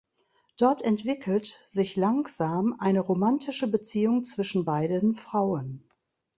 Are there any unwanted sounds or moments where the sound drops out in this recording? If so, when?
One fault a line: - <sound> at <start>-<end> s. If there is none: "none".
none